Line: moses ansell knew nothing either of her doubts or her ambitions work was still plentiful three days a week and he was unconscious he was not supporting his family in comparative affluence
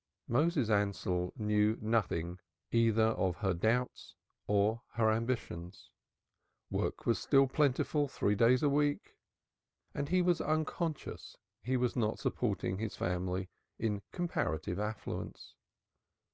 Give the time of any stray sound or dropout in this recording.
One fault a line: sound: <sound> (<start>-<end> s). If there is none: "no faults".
no faults